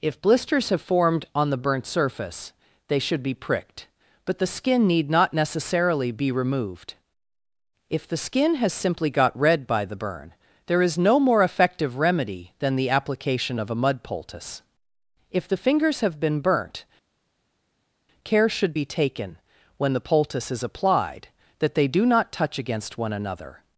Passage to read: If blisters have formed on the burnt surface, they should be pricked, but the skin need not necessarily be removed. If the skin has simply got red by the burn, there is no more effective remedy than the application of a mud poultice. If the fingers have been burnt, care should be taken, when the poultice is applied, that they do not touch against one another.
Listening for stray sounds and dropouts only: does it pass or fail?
pass